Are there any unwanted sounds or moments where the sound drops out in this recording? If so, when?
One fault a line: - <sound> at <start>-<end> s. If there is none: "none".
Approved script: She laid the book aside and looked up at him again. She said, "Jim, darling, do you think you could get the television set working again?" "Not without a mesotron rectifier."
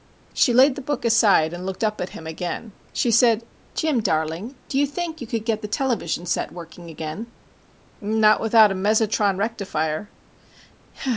none